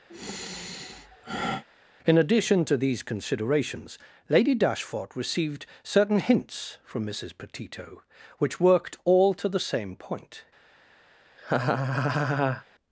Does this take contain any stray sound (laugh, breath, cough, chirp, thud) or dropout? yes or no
yes